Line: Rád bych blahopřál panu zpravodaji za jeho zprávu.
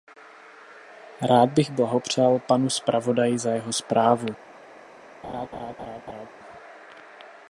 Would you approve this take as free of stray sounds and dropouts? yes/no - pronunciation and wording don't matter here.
no